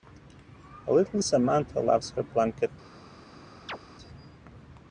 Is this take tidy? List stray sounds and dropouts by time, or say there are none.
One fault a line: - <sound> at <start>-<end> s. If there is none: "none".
- chirp at 3.7-3.8 s